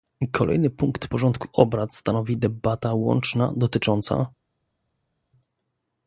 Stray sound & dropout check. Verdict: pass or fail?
pass